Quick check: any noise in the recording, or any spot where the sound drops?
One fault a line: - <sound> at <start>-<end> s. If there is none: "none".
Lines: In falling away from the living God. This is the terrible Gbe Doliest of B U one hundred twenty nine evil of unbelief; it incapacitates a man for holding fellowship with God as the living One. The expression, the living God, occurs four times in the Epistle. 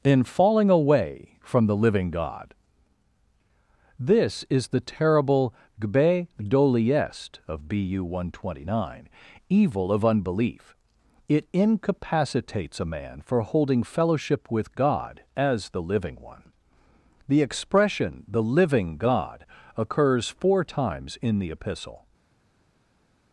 none